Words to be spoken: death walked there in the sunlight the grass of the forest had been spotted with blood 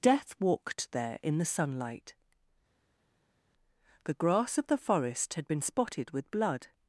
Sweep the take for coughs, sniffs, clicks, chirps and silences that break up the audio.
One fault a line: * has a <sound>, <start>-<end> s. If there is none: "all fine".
all fine